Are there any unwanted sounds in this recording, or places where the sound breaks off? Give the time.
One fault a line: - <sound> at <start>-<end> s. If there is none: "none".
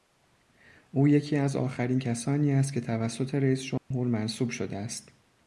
- dropout at 3.8-3.9 s